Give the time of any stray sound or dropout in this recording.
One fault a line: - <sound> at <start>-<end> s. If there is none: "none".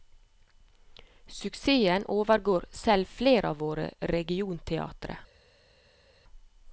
none